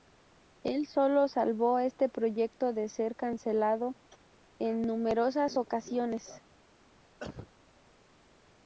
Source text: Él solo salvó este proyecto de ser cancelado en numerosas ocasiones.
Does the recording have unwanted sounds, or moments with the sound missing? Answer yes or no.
yes